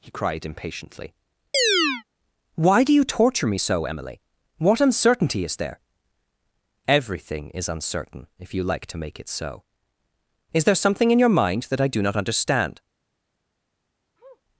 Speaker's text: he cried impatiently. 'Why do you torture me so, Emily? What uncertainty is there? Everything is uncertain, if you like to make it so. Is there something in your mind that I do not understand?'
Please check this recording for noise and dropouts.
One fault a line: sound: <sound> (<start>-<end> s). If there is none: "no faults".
sound: chirp (1.5-2.0 s)
sound: sniff (14.2-14.4 s)